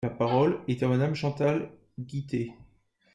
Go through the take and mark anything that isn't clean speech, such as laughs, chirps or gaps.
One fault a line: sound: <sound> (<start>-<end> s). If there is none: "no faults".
no faults